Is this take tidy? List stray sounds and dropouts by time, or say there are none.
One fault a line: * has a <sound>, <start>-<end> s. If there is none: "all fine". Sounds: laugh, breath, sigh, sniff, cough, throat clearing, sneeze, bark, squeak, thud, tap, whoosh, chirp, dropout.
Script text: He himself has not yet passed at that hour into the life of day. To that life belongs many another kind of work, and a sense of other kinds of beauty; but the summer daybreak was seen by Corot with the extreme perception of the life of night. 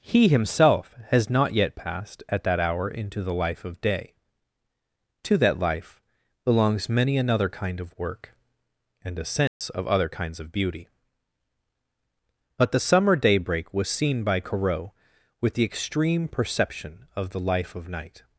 * has a dropout, 9.5-9.6 s